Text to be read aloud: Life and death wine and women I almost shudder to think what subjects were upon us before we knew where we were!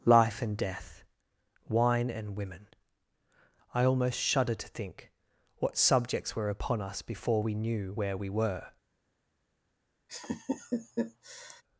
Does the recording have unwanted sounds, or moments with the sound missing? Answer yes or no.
yes